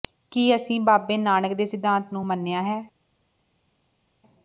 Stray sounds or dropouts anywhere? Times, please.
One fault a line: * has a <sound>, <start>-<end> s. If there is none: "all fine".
all fine